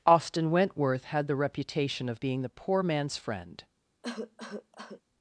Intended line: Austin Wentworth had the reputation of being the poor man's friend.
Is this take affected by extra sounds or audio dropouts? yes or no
yes